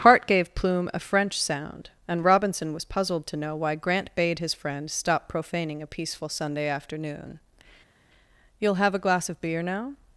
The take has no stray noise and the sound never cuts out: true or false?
true